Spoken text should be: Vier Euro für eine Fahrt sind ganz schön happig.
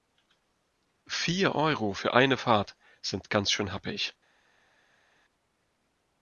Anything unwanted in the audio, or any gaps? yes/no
no